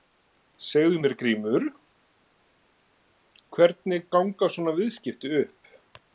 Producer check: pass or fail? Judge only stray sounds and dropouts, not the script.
pass